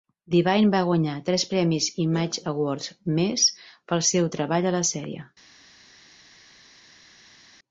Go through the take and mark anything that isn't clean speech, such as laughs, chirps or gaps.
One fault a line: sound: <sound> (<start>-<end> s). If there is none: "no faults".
no faults